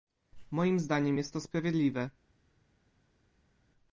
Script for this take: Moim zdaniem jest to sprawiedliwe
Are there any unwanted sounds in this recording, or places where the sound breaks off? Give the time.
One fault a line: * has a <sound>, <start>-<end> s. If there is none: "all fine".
all fine